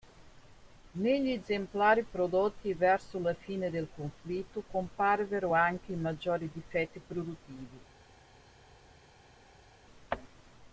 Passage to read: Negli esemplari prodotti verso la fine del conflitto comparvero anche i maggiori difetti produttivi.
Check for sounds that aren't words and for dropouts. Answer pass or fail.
pass